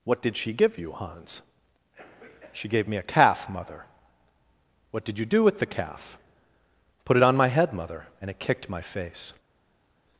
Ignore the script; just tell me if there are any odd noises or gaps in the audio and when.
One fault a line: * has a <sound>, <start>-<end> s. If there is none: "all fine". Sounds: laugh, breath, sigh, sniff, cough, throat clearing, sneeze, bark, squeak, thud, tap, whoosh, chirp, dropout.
all fine